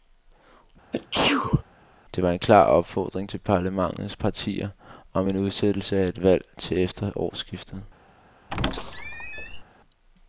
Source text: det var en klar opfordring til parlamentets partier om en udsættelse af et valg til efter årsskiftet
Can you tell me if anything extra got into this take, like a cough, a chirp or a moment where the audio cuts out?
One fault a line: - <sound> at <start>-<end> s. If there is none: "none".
- sneeze at 0.9-1.6 s
- squeak at 8.5-9.6 s